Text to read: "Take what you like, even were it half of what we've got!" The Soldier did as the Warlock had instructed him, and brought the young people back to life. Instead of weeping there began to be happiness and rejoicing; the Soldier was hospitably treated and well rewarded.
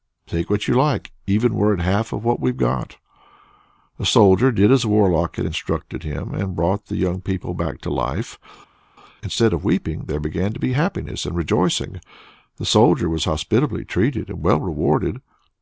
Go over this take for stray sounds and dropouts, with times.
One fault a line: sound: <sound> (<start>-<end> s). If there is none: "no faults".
no faults